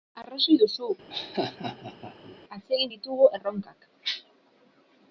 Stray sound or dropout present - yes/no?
yes